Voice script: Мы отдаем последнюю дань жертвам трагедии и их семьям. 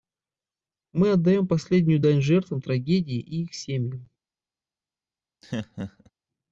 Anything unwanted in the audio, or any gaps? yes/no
yes